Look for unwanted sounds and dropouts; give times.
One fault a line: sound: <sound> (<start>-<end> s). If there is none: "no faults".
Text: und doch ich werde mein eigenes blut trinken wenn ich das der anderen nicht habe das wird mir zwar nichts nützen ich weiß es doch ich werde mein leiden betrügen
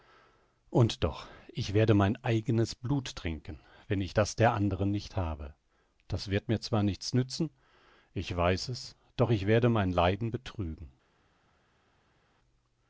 no faults